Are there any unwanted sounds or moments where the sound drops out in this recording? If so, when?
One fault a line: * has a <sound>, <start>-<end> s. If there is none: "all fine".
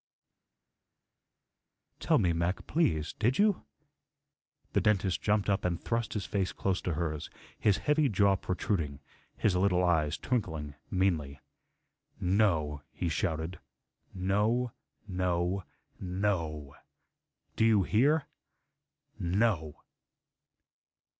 all fine